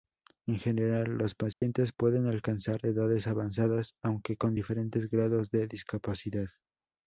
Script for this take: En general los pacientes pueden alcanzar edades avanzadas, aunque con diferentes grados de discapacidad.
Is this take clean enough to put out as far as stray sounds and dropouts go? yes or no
no